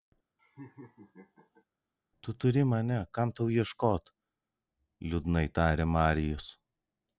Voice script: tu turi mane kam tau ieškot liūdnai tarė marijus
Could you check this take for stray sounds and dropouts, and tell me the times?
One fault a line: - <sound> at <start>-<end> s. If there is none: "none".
- laugh at 0.4-1.6 s